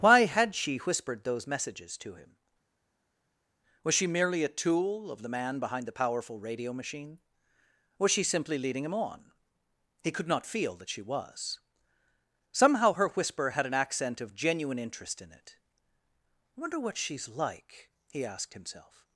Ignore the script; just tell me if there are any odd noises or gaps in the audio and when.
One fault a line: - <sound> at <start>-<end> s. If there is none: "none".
none